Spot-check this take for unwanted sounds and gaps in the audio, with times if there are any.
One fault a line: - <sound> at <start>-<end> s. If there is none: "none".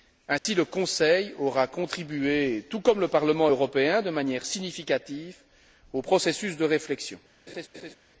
- dropout at 0.4-0.5 s
- laugh at 7.5-8.0 s